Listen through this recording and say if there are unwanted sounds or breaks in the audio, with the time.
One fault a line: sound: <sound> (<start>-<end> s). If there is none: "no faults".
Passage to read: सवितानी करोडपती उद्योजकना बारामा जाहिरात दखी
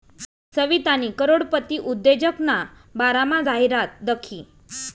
no faults